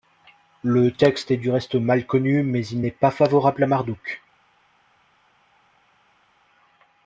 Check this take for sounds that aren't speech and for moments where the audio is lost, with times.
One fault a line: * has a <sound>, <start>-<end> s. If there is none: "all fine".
all fine